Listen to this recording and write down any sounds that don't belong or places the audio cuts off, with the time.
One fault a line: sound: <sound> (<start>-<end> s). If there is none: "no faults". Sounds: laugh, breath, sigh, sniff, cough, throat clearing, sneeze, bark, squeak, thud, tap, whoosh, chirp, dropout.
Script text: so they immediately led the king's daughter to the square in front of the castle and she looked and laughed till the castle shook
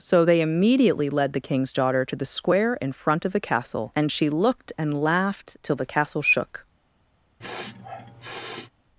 sound: sniff (7.4-8.7 s)